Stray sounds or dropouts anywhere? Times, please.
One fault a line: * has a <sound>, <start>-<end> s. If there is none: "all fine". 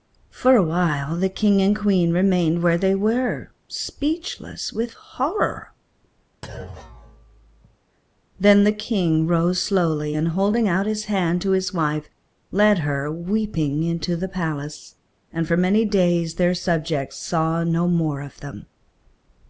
* has a thud, 6.4-7.8 s